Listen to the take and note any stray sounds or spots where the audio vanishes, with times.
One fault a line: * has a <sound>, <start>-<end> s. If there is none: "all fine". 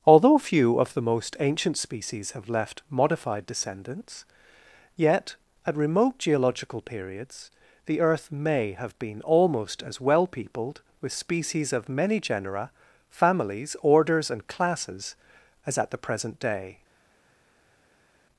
all fine